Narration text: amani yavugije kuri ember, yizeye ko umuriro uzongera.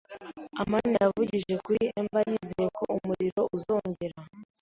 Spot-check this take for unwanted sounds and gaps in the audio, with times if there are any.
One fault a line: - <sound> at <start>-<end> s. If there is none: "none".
none